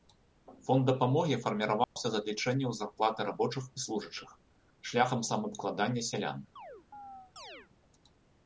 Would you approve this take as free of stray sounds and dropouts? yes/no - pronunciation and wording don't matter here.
no